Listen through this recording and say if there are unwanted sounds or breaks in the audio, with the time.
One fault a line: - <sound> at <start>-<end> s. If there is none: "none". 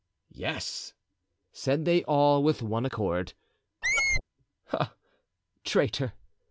- squeak at 3.8-4.2 s